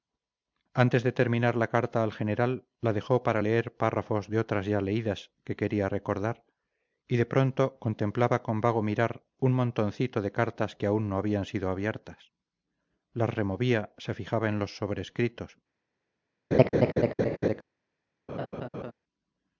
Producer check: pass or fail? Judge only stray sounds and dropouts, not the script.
fail